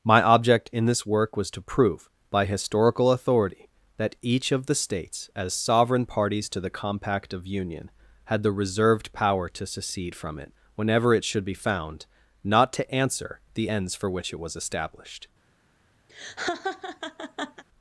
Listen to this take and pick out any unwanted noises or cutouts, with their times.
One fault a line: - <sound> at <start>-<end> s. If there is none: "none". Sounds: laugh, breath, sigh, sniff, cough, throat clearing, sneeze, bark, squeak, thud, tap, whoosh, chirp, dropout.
- laugh at 16.1-17.6 s